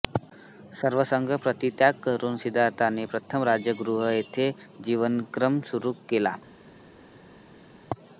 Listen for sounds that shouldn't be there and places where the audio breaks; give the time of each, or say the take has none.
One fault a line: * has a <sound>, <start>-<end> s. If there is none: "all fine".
all fine